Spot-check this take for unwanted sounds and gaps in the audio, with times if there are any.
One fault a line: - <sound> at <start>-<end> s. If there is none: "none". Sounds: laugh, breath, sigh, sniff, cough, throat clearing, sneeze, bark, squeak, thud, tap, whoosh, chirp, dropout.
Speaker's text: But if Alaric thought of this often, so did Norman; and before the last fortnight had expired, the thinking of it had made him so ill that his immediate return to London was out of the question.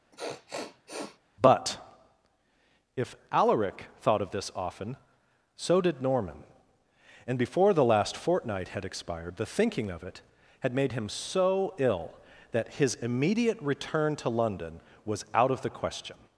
- sniff at 0.1-1.2 s